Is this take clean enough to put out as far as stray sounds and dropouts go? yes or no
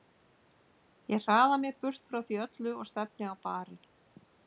yes